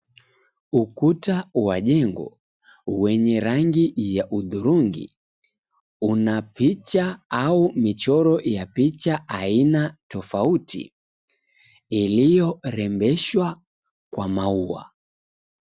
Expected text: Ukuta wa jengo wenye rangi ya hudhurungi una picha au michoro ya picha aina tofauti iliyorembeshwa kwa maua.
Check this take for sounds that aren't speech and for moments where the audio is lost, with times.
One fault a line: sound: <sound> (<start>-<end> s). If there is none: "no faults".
no faults